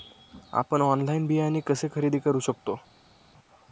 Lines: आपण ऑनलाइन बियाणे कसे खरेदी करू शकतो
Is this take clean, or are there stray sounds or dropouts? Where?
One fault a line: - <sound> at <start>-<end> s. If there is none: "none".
none